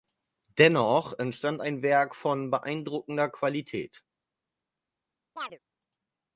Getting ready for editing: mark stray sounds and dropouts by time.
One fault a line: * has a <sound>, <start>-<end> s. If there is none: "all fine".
* has a chirp, 5.4-5.6 s